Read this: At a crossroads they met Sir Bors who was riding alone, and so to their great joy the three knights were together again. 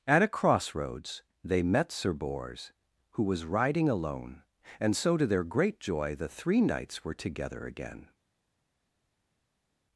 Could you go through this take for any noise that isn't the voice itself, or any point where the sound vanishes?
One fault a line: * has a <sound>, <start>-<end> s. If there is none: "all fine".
all fine